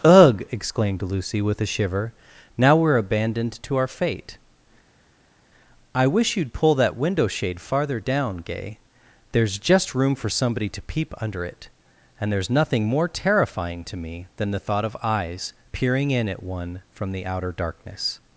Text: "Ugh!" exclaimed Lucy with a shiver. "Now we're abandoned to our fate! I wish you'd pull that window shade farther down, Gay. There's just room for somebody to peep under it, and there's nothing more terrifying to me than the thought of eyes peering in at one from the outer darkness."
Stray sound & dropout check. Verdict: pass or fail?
pass